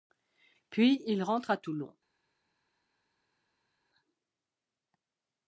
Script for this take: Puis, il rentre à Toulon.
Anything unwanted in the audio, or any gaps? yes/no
no